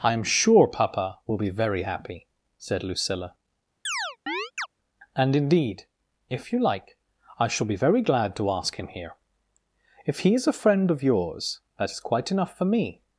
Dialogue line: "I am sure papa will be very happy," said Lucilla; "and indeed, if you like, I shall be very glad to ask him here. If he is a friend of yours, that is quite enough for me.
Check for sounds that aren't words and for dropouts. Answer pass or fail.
fail